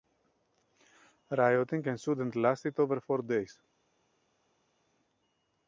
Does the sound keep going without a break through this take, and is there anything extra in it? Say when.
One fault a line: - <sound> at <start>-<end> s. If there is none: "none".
none